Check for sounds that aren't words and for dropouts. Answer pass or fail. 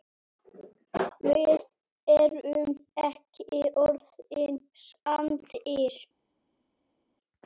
pass